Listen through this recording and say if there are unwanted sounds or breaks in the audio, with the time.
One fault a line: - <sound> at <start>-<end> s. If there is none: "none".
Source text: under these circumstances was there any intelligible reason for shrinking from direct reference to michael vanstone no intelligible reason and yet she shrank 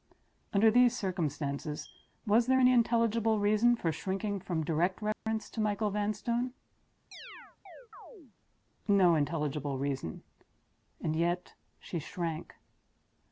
- dropout at 5.1-5.3 s
- chirp at 7.1-8.4 s